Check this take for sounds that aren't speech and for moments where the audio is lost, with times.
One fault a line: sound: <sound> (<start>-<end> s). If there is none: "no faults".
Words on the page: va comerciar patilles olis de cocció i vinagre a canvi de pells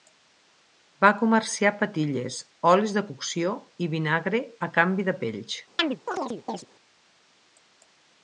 sound: chirp (5.8-6.7 s)